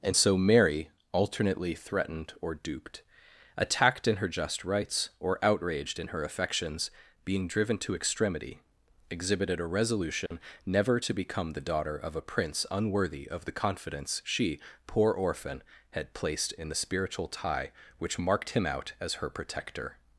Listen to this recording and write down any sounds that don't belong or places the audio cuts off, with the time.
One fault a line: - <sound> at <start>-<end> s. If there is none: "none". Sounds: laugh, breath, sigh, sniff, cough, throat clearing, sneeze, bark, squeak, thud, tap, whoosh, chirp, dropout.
- dropout at 10.3-10.3 s